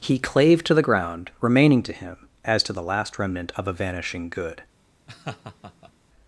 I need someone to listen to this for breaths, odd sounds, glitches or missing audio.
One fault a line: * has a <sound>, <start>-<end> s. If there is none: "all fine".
* has a laugh, 5.1-5.9 s